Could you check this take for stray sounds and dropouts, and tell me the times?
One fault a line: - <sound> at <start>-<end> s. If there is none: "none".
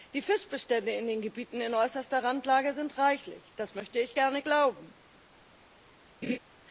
- laugh at 6.2-6.4 s